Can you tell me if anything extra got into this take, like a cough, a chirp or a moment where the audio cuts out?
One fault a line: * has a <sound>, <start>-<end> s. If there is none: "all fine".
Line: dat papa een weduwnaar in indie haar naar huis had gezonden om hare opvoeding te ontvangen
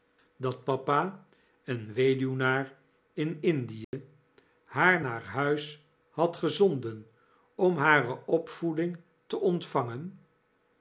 * has a dropout, 3.8-3.9 s